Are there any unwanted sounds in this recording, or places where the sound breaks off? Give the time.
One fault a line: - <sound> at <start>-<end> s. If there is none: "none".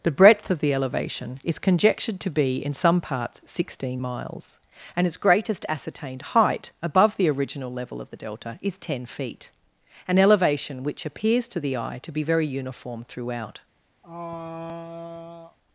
- throat clearing at 14.0-15.6 s